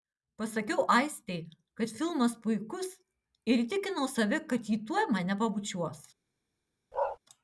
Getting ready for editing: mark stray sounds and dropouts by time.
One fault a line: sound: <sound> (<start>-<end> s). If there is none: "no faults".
sound: bark (6.9-7.2 s)